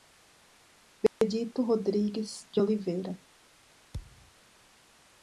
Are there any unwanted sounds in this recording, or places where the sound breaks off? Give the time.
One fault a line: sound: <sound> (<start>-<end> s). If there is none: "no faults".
sound: dropout (1.1-1.2 s)
sound: thud (3.9-4.3 s)